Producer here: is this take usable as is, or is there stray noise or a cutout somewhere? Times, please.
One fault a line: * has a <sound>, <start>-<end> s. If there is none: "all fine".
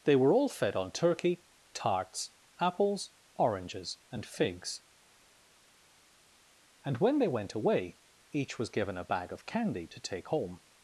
all fine